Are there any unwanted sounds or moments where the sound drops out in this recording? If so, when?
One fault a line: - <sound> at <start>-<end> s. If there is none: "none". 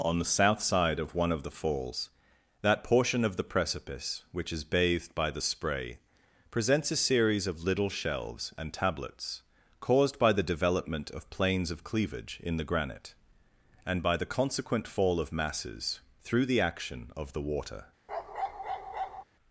- bark at 18.1-19.2 s